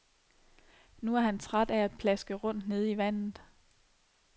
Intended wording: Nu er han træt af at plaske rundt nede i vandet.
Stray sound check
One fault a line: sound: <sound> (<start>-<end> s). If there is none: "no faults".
no faults